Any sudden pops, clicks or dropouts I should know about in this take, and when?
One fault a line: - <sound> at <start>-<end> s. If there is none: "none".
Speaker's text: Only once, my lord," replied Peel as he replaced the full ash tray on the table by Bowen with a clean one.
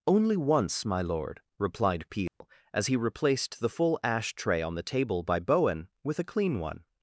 - dropout at 2.3-2.4 s